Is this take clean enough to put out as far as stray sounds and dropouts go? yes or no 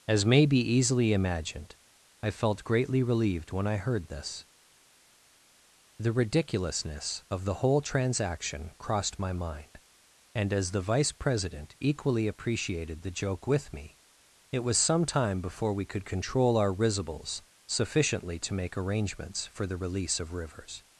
yes